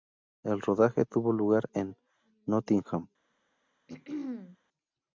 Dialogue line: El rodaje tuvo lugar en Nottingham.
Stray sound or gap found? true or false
true